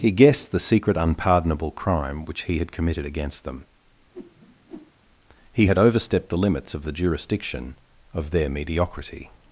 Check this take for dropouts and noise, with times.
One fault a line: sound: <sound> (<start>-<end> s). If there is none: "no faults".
sound: whoosh (4.1-4.9 s)